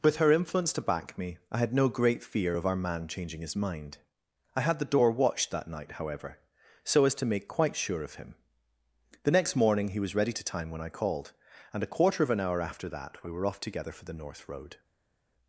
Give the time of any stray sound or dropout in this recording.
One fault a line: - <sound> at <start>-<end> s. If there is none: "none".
none